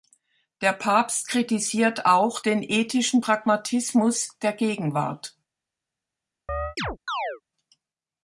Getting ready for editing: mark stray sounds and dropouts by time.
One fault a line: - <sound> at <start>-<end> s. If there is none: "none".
- chirp at 6.5-7.4 s